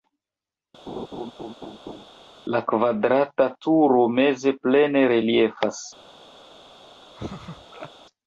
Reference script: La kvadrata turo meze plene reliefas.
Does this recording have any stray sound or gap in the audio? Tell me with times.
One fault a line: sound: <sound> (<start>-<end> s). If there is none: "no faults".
sound: laugh (0.9-2.1 s)
sound: laugh (7.2-7.9 s)